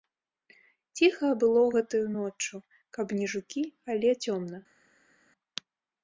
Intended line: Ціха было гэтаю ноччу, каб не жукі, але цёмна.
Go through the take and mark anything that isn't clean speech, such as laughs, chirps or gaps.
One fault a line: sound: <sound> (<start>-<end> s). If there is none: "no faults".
no faults